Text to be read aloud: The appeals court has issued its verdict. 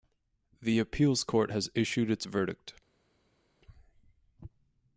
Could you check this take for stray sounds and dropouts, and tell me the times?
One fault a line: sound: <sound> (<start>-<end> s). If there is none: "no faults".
no faults